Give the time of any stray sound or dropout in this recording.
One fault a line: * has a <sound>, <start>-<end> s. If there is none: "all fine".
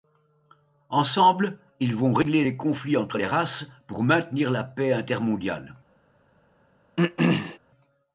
* has a throat clearing, 7.0-7.6 s